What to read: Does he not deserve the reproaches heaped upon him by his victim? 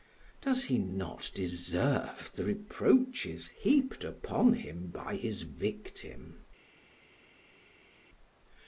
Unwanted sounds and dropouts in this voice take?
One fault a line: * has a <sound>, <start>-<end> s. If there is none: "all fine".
all fine